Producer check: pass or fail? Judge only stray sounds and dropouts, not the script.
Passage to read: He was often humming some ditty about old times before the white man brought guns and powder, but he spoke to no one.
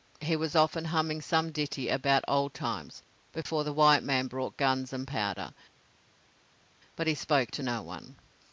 pass